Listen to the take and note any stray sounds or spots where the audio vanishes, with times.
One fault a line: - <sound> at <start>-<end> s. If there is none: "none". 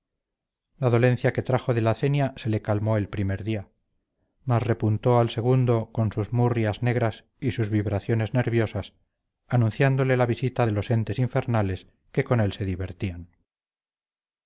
none